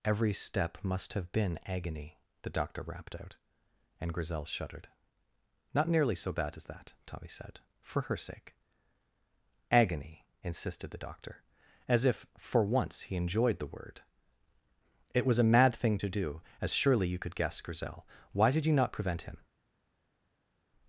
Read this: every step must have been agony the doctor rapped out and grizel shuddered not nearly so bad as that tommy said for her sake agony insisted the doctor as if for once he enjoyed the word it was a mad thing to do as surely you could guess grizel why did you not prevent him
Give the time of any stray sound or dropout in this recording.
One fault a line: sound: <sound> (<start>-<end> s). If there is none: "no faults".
no faults